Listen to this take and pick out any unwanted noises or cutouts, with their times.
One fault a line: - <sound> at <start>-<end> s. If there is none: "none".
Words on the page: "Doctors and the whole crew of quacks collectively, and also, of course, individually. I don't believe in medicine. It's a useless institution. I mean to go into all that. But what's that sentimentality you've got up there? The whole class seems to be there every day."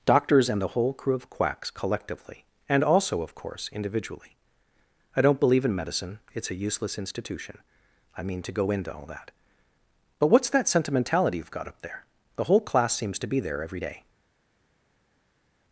none